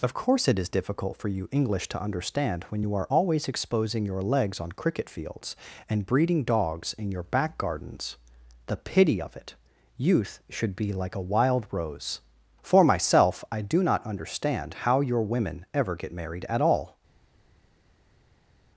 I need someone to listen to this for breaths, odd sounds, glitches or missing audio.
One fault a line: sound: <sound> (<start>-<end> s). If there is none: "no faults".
no faults